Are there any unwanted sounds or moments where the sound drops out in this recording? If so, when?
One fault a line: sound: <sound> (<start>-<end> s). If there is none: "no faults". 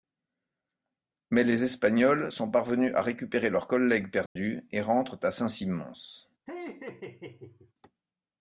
sound: dropout (4.3-4.4 s)
sound: laugh (6.5-7.7 s)